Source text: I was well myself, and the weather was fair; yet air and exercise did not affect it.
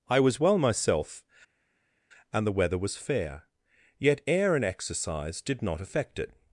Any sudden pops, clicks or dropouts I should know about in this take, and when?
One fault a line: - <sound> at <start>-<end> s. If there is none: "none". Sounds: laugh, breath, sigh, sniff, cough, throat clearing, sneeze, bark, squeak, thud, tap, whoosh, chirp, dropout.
none